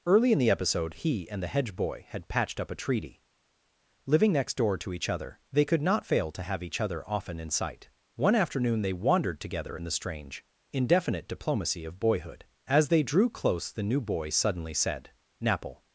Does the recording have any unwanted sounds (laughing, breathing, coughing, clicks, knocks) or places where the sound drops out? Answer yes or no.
no